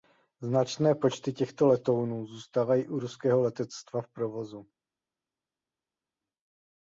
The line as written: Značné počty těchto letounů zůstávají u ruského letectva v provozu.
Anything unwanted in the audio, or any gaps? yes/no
no